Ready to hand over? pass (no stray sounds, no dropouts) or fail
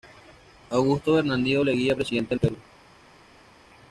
pass